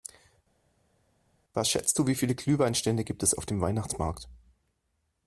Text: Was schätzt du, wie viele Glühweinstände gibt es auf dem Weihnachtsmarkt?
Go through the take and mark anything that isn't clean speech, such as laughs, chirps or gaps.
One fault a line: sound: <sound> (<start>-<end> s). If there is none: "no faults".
no faults